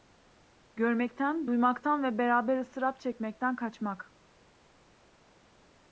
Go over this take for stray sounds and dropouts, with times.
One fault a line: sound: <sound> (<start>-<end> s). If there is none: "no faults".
no faults